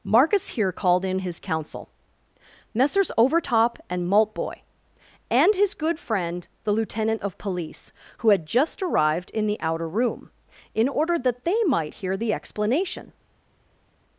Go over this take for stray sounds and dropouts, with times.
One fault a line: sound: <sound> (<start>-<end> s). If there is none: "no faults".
no faults